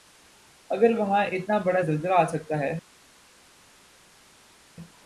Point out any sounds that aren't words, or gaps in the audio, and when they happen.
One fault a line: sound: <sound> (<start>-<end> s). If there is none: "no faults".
no faults